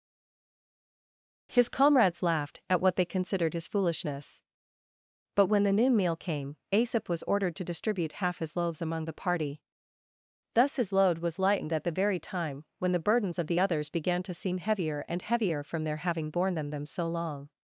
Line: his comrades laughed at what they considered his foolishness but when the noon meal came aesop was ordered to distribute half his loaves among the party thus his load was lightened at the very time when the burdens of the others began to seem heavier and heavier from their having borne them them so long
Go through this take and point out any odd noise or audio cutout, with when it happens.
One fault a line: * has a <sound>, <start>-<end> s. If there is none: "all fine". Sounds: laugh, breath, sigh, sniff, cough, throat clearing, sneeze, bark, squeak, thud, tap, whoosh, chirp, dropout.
all fine